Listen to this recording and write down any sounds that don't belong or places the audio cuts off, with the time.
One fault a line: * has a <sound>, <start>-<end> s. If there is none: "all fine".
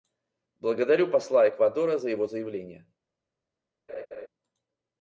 * has a laugh, 3.9-4.3 s